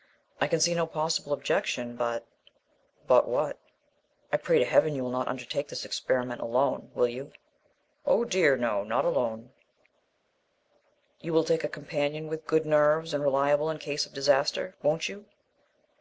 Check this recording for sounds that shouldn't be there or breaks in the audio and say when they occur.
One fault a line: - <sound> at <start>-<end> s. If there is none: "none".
none